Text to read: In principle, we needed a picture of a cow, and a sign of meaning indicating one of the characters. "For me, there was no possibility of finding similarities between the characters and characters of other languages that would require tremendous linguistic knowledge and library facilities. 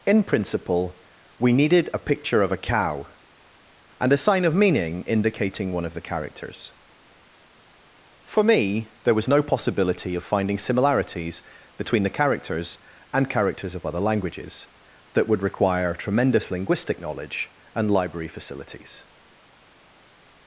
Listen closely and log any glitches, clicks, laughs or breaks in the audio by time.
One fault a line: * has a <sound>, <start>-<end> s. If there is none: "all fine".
all fine